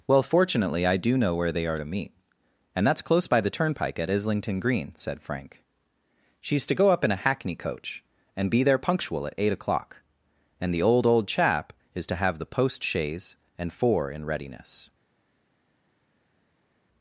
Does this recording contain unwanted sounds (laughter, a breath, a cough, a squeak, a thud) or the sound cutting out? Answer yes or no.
no